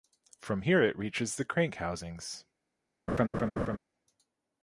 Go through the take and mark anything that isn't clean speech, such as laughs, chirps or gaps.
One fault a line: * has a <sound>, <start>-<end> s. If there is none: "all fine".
* has a laugh, 3.1-3.8 s